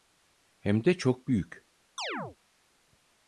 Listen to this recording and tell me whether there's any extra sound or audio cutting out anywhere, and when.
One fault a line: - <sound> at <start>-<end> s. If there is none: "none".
- chirp at 2.0-2.4 s